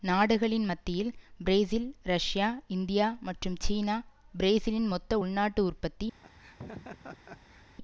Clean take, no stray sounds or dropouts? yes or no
no